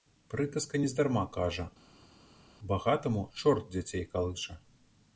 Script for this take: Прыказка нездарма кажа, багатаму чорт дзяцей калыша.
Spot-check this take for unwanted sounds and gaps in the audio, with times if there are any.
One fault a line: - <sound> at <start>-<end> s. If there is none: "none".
none